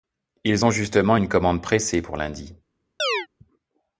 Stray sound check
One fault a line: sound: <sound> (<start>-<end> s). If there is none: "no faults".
sound: chirp (3.0-3.3 s)